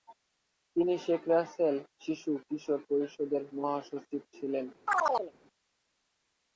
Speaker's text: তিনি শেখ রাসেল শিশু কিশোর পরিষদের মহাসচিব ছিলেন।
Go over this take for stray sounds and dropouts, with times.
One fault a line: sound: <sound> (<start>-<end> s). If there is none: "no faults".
sound: chirp (4.9-5.3 s)